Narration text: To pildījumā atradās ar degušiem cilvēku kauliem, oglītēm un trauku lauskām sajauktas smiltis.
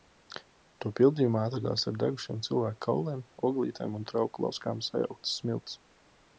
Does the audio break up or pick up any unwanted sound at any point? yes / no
no